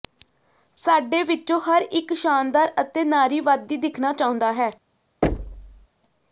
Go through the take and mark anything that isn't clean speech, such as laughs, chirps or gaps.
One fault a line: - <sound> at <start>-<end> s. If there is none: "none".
- thud at 5.2-5.9 s